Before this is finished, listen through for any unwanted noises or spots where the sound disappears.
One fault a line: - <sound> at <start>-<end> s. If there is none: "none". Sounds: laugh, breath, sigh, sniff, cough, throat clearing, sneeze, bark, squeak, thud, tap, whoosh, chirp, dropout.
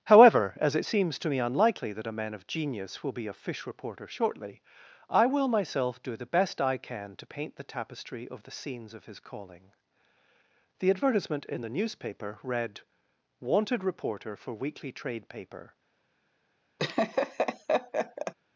- laugh at 16.8-18.3 s